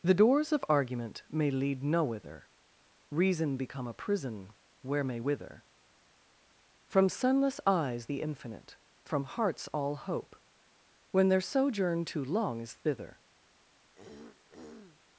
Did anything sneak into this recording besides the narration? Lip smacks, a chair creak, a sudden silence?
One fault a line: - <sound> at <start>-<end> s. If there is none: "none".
- throat clearing at 13.9-15.0 s